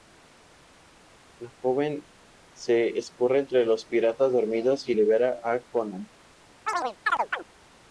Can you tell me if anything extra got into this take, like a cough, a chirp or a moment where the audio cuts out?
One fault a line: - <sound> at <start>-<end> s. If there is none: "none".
- chirp at 6.7-7.5 s